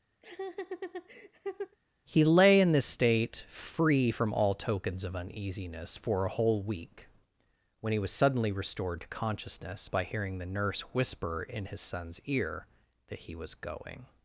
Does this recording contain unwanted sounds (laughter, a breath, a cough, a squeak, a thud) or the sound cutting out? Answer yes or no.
yes